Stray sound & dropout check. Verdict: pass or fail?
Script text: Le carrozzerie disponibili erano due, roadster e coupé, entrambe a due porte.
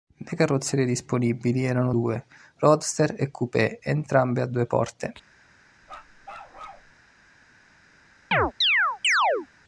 fail